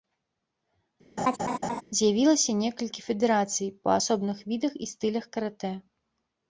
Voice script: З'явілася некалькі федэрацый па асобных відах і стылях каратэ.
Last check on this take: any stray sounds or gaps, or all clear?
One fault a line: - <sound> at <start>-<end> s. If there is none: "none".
- laugh at 1.2-1.8 s